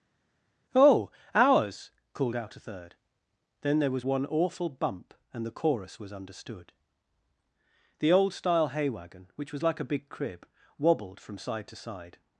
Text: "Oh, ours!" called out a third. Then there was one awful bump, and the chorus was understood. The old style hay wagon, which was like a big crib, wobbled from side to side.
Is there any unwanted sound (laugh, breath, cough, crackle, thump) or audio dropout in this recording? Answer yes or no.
no